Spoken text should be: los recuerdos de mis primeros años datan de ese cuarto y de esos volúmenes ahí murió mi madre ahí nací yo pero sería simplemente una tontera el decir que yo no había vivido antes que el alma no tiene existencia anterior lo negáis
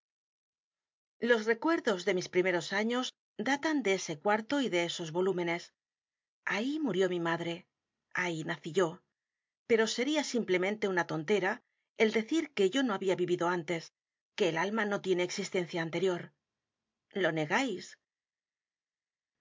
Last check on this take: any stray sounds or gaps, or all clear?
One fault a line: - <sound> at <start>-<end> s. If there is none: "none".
none